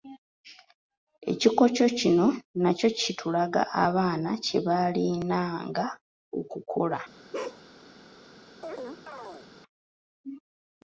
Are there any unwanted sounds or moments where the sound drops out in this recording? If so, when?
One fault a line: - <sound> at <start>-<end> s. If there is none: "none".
- bark at 7.3-7.6 s
- chirp at 8.6-9.5 s